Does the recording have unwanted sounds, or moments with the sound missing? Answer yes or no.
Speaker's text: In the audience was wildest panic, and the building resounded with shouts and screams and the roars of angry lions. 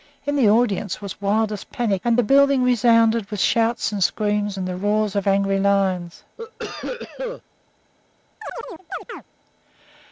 yes